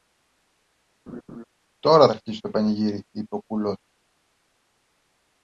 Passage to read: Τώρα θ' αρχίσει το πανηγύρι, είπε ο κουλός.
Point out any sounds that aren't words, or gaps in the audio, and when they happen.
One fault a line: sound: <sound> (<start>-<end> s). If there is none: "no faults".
sound: laugh (1.1-1.4 s)